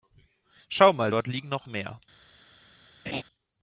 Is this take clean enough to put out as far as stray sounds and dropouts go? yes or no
no